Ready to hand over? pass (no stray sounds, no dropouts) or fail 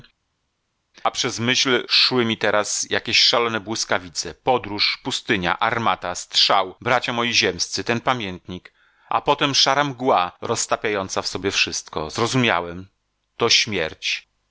pass